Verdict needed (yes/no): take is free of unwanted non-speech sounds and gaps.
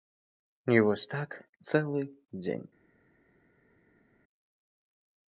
yes